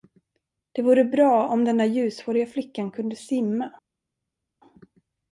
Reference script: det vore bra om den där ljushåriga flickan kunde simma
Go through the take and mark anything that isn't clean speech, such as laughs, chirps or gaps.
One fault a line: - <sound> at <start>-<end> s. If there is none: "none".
none